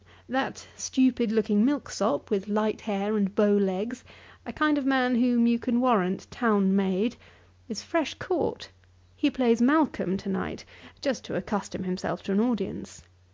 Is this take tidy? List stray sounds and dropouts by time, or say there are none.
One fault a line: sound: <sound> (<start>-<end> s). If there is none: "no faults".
no faults